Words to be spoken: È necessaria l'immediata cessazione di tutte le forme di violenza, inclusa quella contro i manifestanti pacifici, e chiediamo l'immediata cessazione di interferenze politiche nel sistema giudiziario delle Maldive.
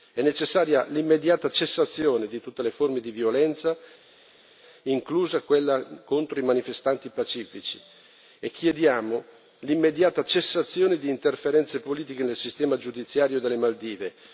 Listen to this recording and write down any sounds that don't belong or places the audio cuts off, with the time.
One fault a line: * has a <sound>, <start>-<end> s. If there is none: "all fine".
all fine